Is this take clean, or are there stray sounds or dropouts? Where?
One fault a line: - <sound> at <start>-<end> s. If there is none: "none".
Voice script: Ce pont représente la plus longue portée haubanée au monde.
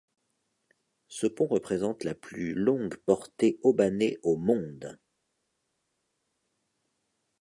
none